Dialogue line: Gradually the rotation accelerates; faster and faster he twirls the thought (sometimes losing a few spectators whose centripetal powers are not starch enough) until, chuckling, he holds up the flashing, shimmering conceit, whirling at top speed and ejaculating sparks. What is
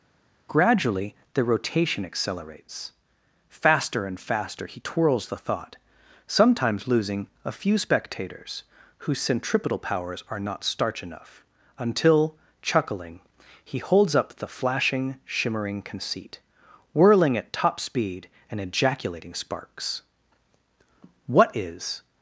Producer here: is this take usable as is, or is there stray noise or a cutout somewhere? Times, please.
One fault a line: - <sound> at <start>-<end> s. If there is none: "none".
none